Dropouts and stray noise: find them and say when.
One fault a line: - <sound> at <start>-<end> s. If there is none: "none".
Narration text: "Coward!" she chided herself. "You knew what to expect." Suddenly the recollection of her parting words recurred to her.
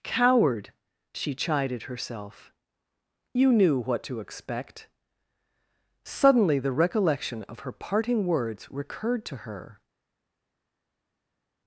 none